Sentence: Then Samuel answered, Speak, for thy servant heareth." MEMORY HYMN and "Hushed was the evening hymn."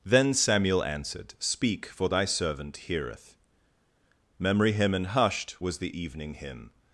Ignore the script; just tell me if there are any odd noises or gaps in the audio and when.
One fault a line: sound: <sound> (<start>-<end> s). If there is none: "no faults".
no faults